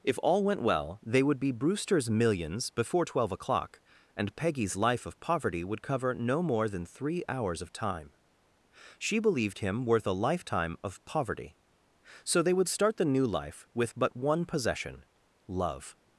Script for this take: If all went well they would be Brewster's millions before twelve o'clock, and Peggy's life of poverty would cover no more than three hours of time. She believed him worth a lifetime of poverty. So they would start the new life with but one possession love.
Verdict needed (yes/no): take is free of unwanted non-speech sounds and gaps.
yes